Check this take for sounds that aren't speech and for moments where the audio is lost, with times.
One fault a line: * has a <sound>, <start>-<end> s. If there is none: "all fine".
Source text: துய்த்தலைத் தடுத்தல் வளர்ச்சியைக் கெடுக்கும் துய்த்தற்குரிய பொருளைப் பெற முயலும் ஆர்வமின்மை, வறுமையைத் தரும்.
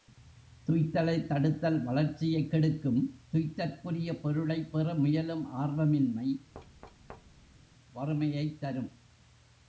* has a thud, 6.5-7.6 s